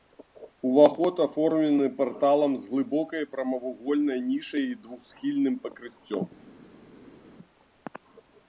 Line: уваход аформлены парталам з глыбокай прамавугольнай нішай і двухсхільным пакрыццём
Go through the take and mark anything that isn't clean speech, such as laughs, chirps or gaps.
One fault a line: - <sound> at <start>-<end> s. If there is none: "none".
none